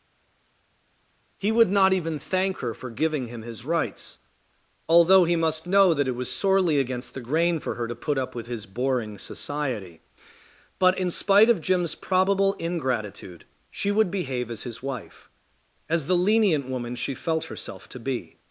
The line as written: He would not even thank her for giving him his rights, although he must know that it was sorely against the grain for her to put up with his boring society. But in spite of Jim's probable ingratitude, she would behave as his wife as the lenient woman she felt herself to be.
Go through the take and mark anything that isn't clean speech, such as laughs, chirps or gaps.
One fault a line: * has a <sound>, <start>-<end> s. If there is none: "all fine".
all fine